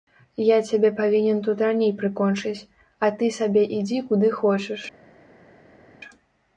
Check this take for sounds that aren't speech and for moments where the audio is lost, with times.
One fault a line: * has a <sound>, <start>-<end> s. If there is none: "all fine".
all fine